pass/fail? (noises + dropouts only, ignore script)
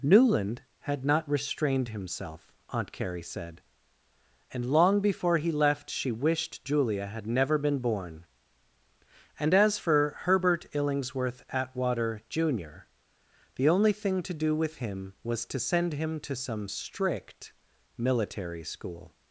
pass